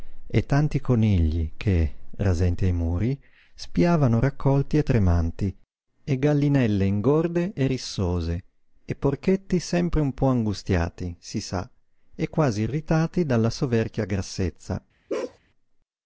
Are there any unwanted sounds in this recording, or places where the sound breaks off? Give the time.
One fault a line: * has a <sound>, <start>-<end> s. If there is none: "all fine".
* has a bark, 15.1-15.4 s